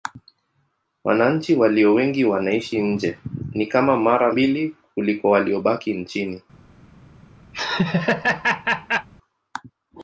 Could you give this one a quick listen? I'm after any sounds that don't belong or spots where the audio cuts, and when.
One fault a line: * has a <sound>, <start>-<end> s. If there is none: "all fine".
* has a laugh, 7.5-9.1 s